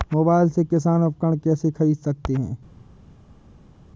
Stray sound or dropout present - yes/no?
no